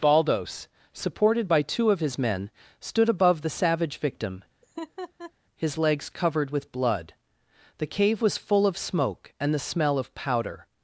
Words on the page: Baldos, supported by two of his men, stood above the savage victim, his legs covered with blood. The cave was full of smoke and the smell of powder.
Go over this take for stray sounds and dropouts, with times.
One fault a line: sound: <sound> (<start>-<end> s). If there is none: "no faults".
sound: laugh (4.6-5.3 s)